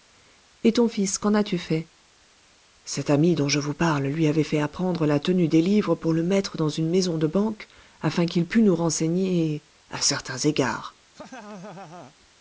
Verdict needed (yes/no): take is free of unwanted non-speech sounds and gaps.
no